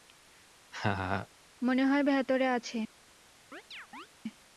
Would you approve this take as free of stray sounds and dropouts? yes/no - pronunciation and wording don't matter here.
no